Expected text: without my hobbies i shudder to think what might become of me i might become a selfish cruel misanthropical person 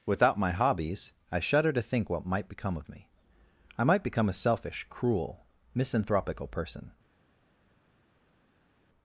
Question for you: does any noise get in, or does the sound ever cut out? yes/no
no